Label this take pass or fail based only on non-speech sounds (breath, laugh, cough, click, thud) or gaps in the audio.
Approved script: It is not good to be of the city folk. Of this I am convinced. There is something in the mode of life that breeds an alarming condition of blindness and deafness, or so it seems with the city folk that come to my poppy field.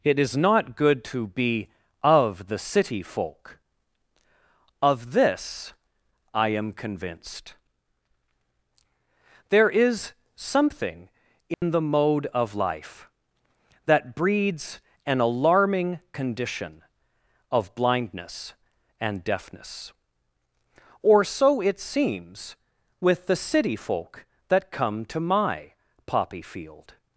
fail